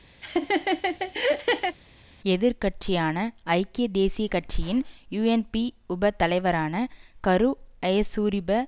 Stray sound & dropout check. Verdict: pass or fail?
fail